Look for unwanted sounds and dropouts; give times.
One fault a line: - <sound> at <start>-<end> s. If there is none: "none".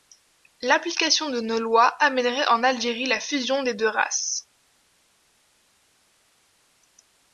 none